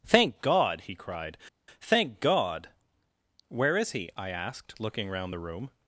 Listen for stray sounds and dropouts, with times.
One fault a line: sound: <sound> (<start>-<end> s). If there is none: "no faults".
no faults